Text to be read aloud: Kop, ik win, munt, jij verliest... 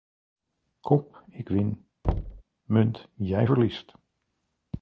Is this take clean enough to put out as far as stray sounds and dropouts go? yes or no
no